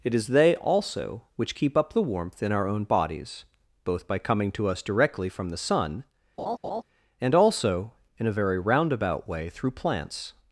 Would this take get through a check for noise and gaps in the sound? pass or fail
fail